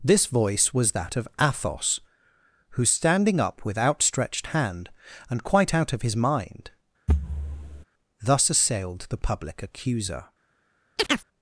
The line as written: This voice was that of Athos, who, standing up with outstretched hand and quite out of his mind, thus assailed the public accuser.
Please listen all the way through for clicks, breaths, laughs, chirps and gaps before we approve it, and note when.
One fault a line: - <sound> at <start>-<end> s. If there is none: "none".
- thud at 7.1-7.8 s
- chirp at 11.0-11.3 s